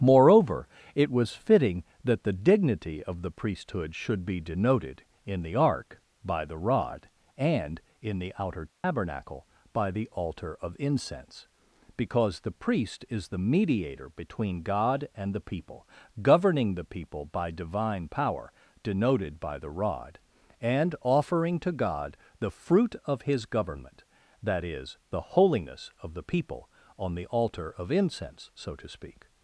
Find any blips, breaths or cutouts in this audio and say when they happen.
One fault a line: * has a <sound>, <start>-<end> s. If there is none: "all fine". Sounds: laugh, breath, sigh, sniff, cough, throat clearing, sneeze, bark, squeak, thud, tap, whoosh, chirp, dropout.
* has a dropout, 8.7-8.8 s